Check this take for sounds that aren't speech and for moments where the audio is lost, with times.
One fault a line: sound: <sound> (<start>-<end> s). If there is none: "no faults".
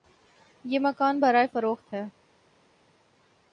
no faults